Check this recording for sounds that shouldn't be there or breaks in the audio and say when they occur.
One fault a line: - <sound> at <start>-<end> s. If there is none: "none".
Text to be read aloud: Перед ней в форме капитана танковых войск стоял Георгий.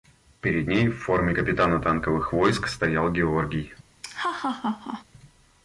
- laugh at 4.0-5.0 s